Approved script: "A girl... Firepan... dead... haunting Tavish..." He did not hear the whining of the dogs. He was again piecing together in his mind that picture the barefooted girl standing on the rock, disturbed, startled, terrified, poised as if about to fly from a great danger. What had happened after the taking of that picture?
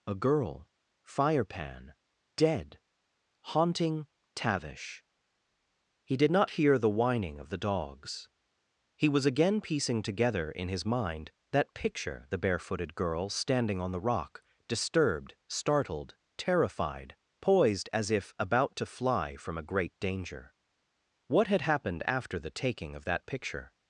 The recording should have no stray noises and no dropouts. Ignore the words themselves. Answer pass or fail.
pass